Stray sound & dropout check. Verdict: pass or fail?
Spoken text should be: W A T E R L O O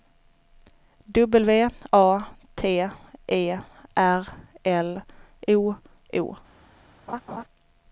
fail